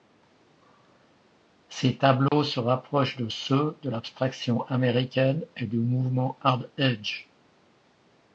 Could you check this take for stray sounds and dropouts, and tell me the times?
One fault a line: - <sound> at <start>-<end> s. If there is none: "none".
- dropout at 2.3-2.3 s